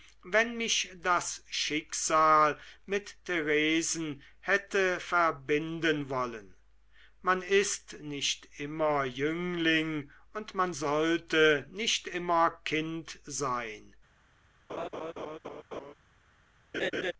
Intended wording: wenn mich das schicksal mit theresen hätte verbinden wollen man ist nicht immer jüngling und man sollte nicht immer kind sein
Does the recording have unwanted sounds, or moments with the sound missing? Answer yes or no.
yes